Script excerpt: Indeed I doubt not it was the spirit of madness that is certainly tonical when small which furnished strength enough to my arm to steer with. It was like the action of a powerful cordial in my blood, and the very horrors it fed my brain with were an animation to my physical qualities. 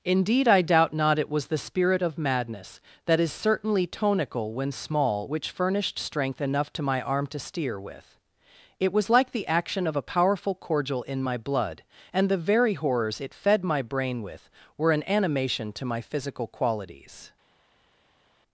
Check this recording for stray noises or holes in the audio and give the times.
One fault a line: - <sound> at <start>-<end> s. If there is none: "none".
none